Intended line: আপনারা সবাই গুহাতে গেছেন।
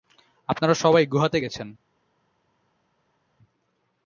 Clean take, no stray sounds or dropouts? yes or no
yes